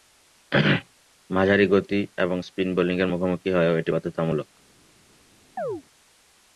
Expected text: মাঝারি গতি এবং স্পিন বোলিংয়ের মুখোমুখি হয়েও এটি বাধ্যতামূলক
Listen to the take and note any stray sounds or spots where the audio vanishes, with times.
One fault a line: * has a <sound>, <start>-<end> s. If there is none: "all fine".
* has a chirp, 5.6-5.8 s